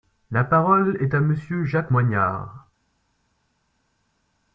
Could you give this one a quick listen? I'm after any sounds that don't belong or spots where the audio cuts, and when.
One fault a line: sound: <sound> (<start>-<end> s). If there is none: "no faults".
no faults